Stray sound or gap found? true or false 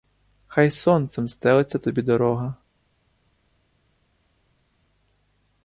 false